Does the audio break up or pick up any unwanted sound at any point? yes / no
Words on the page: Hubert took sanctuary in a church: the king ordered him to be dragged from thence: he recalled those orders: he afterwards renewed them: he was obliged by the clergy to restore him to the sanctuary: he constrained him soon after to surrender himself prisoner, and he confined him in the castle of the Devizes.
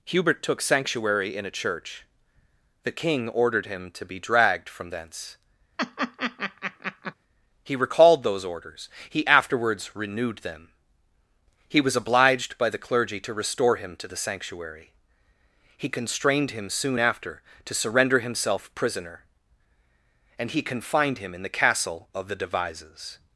yes